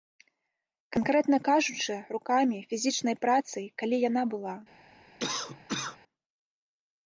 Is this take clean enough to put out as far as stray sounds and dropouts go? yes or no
no